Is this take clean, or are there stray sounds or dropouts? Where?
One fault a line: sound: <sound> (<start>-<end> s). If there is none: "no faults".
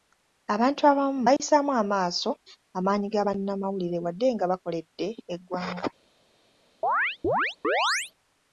sound: dropout (1.4-1.4 s)
sound: chirp (6.8-8.1 s)